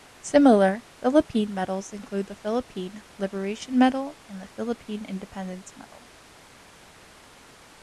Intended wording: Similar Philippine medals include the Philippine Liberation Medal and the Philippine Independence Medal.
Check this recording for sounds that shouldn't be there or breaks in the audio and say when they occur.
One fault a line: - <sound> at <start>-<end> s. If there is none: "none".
none